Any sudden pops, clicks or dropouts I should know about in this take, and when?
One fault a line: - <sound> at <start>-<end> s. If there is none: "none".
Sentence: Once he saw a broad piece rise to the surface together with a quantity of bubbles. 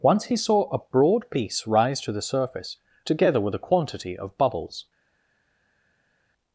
none